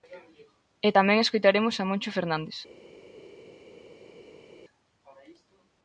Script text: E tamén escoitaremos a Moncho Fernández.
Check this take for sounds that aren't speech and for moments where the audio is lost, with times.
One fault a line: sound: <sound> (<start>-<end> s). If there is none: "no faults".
no faults